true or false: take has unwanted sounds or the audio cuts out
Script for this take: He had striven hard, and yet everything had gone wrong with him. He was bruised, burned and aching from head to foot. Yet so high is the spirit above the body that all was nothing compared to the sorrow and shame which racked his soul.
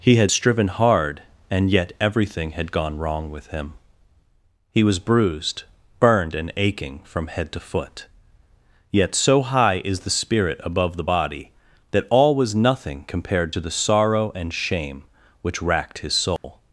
true